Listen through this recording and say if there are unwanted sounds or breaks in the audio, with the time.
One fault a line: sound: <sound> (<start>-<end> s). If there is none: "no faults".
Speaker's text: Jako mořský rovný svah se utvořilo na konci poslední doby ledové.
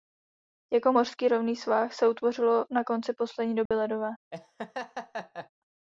sound: dropout (3.7-3.7 s)
sound: laugh (4.3-5.5 s)